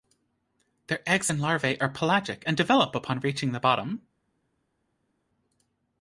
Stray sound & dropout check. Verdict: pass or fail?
pass